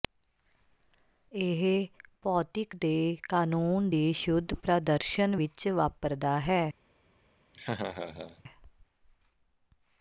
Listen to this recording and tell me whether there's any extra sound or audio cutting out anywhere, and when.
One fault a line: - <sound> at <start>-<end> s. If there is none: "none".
- laugh at 7.5-8.4 s